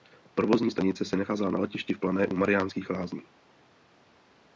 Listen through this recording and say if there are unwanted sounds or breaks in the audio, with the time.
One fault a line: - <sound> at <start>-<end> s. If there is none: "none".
none